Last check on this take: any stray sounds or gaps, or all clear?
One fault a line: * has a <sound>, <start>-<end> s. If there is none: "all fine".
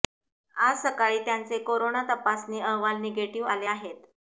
all fine